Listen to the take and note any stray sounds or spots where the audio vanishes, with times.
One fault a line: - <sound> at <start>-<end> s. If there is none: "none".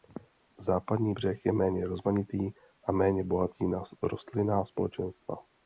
none